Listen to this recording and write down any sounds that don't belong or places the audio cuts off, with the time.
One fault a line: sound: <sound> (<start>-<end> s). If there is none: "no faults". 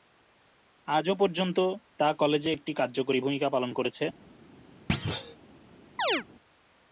sound: thud (4.9-5.4 s)
sound: chirp (6.0-6.2 s)